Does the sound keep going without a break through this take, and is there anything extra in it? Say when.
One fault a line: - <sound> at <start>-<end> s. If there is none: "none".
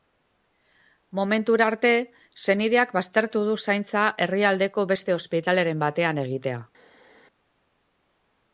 none